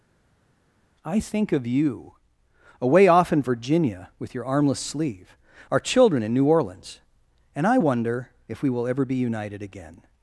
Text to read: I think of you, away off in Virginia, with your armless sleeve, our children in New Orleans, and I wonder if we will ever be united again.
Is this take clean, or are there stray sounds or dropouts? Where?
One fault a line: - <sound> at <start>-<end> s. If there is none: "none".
none